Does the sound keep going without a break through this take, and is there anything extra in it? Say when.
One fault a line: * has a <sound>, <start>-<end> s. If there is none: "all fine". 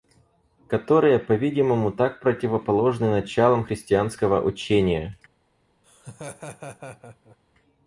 * has a laugh, 5.8-7.4 s